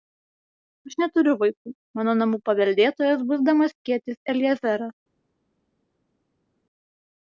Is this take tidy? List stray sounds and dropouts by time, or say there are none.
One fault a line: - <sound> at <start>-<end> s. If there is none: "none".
none